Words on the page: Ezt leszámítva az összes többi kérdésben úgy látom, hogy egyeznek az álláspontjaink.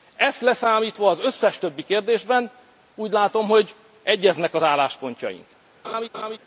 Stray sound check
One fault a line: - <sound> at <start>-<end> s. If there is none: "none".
- laugh at 5.8-6.4 s